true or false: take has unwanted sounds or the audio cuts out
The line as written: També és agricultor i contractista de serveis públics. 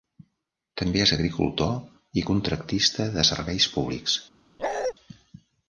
true